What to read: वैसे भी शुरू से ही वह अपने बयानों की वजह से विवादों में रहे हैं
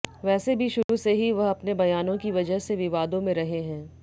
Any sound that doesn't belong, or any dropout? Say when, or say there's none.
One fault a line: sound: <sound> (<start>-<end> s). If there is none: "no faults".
sound: dropout (0.8-0.9 s)